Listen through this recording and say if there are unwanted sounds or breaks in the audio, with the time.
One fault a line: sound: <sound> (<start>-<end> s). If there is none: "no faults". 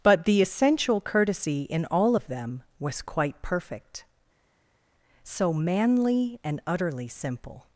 no faults